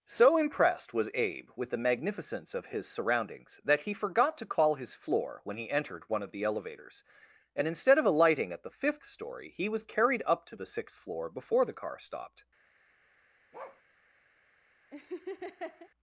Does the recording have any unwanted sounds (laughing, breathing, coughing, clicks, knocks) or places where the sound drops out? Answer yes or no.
yes